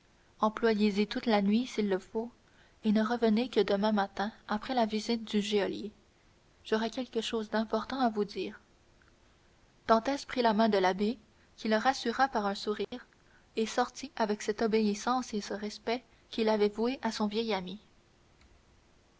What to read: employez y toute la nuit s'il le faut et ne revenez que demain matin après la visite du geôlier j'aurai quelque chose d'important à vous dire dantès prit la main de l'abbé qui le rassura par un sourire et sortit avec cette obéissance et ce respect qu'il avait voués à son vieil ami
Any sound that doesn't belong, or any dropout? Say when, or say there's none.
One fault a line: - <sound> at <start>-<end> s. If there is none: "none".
- dropout at 12.8-12.9 s